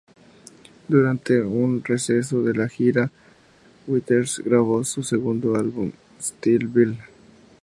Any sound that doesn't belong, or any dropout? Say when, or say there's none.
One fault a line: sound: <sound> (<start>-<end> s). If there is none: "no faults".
no faults